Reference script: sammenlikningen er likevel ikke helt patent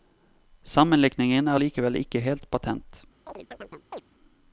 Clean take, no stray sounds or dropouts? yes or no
no